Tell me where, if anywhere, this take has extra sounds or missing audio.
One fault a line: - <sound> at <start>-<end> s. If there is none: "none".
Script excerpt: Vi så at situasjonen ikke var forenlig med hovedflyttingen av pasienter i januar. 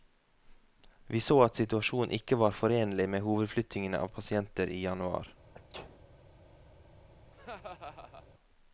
- sneeze at 5.5-6.0 s
- laugh at 7.3-8.3 s